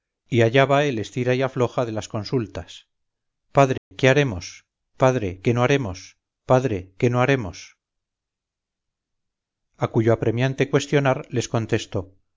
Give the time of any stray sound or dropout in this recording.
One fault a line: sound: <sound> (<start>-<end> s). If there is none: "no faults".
sound: dropout (3.8-3.9 s)